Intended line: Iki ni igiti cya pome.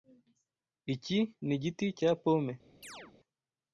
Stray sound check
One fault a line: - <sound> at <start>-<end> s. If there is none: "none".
- chirp at 2.8-3.1 s